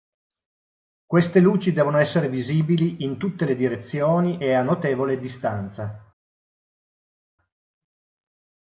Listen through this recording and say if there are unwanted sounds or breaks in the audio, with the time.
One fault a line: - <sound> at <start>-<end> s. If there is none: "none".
none